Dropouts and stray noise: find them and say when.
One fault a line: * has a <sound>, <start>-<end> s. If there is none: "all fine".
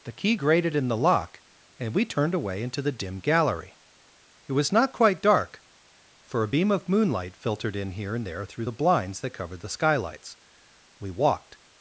all fine